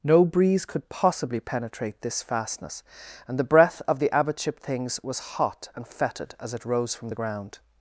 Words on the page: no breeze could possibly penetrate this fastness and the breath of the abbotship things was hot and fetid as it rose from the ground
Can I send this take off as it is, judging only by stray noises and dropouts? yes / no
yes